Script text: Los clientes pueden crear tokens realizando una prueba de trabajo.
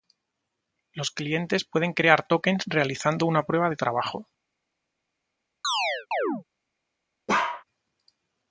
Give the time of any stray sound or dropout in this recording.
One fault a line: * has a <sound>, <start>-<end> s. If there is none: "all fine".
* has a chirp, 5.6-6.4 s
* has a bark, 7.3-7.6 s